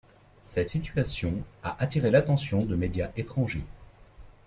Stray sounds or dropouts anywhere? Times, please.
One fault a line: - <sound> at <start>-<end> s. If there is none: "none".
none